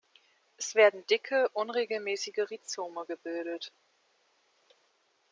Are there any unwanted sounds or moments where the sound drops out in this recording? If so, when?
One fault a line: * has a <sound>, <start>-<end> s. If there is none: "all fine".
all fine